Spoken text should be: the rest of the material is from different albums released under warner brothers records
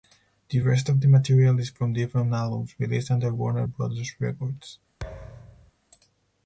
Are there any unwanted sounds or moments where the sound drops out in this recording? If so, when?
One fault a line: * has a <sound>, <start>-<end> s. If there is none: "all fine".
* has a thud, 5.0-5.7 s